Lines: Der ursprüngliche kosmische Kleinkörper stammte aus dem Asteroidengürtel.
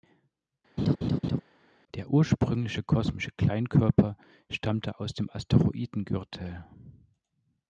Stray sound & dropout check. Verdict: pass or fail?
fail